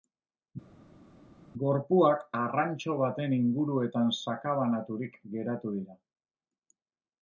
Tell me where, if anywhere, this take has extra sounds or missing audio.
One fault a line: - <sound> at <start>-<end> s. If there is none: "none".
none